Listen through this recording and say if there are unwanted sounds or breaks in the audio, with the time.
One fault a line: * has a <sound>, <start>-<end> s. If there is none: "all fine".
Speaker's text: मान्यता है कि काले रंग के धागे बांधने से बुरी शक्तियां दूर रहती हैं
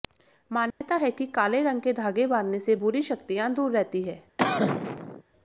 * has a dropout, 0.7-0.8 s
* has a cough, 4.4-5.2 s